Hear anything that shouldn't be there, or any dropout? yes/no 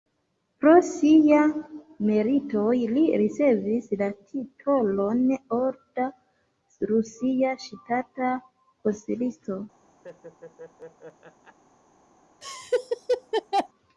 yes